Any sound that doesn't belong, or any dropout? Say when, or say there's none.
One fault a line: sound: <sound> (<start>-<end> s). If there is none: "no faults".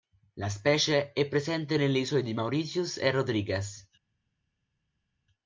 no faults